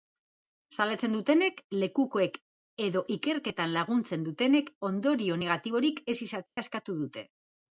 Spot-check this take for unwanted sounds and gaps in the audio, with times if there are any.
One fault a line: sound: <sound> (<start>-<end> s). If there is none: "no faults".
sound: dropout (6.5-6.6 s)